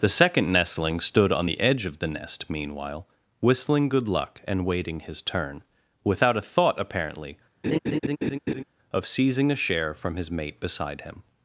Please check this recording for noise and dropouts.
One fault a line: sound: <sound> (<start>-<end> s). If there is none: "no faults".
sound: laugh (7.6-8.6 s)